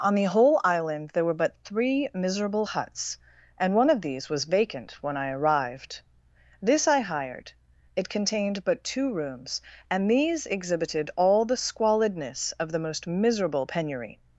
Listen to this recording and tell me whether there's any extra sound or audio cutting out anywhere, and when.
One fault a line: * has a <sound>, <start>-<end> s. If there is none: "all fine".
all fine